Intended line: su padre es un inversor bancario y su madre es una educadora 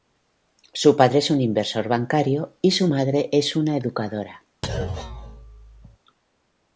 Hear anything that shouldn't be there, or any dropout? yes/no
yes